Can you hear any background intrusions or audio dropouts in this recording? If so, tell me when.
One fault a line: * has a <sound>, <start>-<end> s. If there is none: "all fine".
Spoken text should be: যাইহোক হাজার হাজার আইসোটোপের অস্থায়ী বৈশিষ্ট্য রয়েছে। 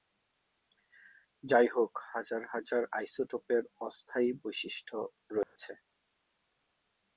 * has a dropout, 5.4-5.6 s